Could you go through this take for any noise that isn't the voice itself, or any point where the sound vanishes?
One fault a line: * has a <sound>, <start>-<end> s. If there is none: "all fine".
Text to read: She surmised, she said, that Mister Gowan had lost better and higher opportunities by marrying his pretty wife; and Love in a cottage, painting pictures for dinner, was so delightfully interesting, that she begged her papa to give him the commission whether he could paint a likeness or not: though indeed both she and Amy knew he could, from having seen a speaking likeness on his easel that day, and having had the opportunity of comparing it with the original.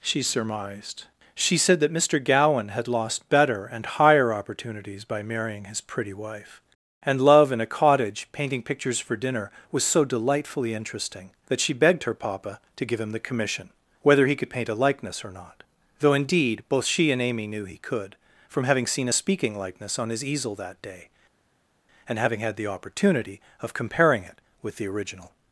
all fine